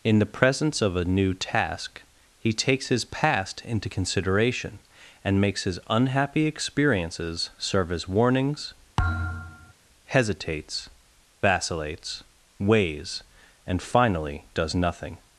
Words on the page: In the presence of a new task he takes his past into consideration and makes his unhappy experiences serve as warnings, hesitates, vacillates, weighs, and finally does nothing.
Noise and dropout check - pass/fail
fail